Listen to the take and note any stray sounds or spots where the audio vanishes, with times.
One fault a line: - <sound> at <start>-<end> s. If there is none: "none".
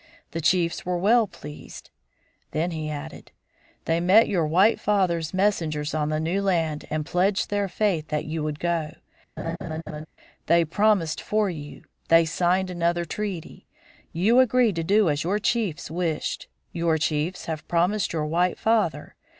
- laugh at 9.4-10.1 s